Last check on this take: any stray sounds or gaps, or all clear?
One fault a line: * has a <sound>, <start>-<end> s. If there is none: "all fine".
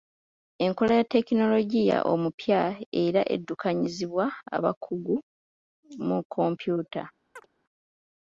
* has a chirp, 7.4-7.5 s